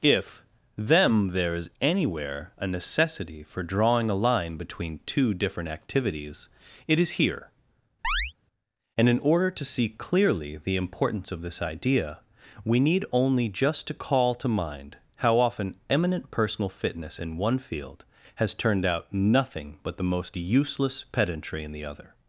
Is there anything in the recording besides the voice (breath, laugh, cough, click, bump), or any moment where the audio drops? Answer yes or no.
yes